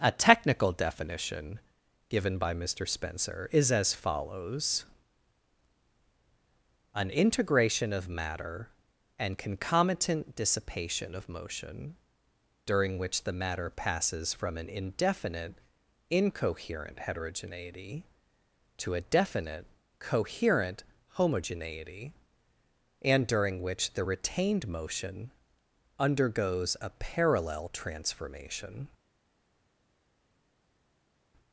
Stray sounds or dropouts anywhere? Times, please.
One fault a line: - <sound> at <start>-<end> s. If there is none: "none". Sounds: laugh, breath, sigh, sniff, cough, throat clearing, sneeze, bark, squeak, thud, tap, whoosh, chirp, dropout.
none